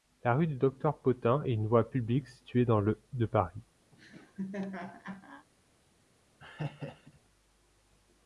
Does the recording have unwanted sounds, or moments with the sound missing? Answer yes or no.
yes